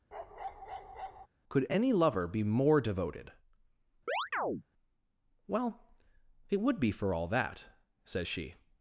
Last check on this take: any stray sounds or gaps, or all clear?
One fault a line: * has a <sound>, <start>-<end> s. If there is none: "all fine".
* has a bark, 0.1-1.3 s
* has a chirp, 4.1-4.6 s